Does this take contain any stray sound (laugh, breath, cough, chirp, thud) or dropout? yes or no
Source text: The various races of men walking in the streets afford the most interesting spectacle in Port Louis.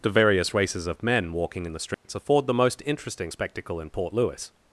yes